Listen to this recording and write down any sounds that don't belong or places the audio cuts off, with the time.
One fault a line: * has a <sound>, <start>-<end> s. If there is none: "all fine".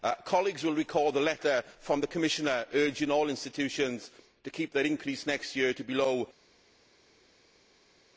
all fine